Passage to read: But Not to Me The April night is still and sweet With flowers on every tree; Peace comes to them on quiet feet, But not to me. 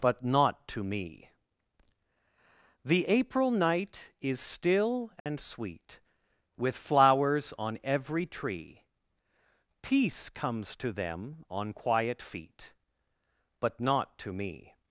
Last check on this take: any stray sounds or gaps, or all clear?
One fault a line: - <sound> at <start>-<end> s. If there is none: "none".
- dropout at 5.2-5.3 s